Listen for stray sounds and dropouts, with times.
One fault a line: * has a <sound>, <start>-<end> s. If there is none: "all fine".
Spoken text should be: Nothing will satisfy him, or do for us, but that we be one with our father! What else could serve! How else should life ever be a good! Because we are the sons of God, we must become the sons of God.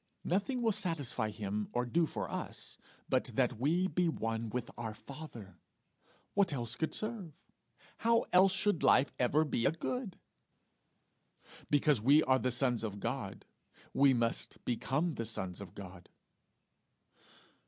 all fine